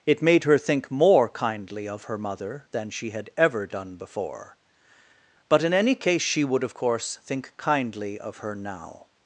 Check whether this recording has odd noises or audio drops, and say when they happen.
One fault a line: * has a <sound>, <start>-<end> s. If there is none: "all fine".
all fine